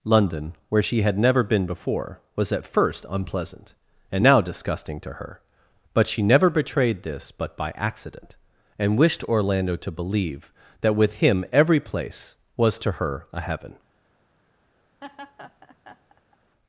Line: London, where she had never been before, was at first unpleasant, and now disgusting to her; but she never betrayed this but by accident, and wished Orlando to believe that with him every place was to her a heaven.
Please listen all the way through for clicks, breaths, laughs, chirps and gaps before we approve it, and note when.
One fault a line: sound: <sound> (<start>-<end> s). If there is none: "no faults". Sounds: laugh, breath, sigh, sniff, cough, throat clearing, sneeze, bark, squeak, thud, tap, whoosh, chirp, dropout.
sound: laugh (15.0-16.4 s)